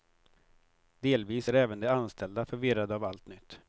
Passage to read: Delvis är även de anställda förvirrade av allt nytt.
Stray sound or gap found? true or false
false